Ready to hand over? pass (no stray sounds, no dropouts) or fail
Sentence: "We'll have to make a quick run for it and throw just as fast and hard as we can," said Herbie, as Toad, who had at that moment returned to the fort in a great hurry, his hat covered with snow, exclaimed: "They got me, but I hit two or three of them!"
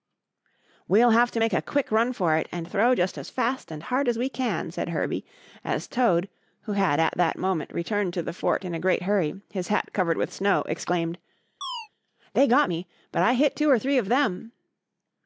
fail